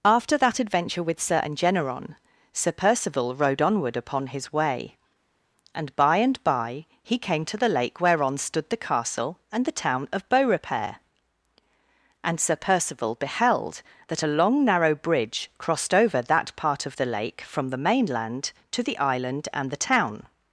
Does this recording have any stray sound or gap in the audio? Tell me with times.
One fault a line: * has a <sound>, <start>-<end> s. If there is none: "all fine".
all fine